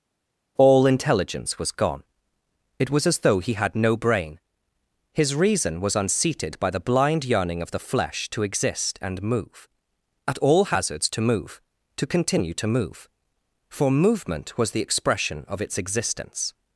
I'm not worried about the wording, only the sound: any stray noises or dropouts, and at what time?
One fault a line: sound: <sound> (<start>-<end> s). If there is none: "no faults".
no faults